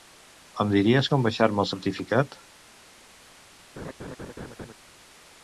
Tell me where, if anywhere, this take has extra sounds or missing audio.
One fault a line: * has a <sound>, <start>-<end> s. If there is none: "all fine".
* has a laugh, 3.8-4.7 s